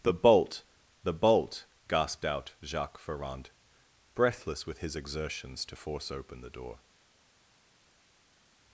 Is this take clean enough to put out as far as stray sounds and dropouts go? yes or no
yes